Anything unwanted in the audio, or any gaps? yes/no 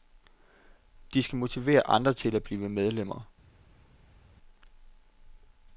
no